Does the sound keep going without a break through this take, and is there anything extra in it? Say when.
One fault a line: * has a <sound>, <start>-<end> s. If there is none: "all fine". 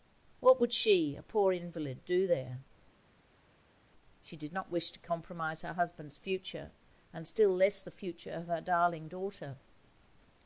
all fine